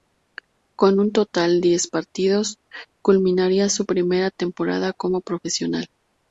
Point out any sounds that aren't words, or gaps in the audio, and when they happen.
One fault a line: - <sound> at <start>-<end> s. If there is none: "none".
none